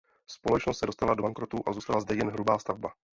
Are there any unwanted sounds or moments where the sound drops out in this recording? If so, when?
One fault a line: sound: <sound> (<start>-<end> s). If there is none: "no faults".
no faults